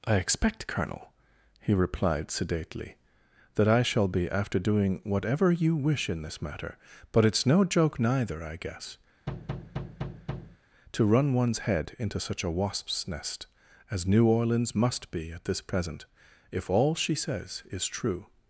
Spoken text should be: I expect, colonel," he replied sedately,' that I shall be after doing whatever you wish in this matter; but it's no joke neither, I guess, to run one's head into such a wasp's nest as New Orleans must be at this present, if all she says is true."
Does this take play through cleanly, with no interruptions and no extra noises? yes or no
no